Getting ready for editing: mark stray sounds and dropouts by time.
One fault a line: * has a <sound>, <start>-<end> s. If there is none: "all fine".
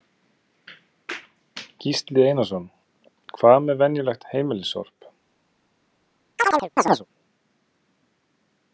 * has a chirp, 6.4-7.1 s